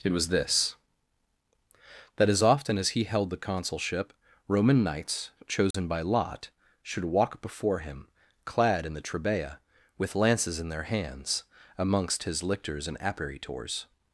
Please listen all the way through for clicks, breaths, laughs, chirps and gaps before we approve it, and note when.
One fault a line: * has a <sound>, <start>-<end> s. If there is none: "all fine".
* has a dropout, 5.7-5.7 s